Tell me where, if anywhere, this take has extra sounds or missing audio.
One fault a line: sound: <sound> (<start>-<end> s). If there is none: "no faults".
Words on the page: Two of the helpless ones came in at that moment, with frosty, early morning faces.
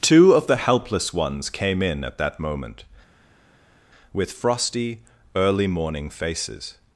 no faults